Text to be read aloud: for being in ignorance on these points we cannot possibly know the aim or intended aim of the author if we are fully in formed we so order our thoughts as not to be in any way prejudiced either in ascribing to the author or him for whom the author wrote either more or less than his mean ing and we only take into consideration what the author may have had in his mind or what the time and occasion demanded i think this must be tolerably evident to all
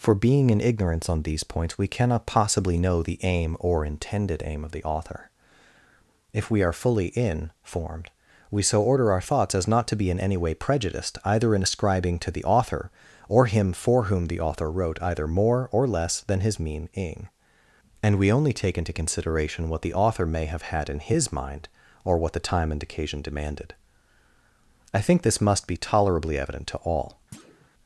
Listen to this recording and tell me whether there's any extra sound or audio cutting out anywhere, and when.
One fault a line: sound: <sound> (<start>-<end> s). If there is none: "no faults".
sound: thud (27.3-27.7 s)